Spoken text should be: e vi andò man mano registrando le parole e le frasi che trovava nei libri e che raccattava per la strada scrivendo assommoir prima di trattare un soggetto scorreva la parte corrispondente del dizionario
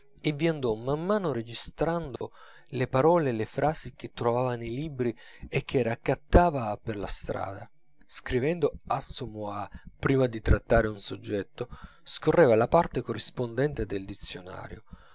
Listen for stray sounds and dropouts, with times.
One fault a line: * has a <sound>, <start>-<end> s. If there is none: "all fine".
* has a dropout, 2.2-2.2 s